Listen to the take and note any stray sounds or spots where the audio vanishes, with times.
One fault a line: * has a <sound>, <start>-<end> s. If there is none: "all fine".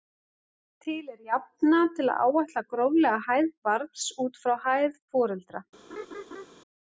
* has a laugh, 5.9-6.5 s